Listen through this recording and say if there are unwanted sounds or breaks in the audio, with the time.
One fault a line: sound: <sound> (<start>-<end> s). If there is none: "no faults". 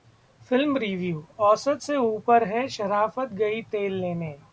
no faults